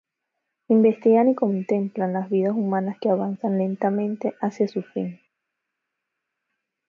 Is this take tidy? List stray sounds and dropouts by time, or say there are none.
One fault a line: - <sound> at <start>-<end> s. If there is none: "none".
none